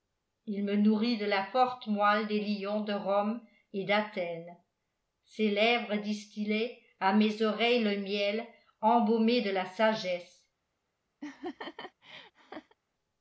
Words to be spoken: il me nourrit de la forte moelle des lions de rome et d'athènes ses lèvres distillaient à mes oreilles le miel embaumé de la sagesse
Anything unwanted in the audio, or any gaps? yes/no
yes